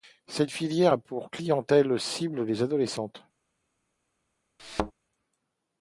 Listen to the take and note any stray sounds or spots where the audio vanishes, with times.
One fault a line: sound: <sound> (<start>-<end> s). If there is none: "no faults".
sound: thud (4.6-4.9 s)